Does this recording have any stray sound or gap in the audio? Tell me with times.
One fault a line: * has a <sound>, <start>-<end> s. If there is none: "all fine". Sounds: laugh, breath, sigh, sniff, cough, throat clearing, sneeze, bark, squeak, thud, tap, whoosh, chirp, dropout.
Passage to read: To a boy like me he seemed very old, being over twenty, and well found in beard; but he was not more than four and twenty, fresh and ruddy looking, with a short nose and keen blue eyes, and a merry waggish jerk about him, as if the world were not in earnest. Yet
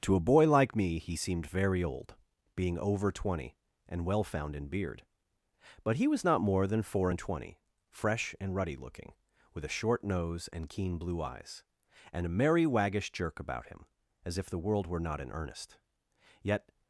all fine